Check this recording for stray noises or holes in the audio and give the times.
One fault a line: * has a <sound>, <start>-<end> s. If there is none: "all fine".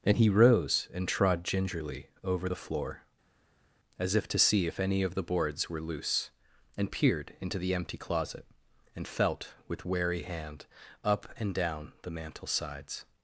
all fine